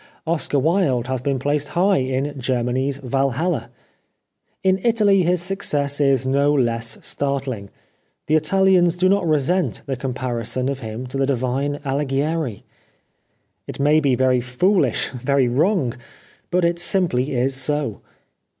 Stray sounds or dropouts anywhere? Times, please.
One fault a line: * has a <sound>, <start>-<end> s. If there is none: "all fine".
all fine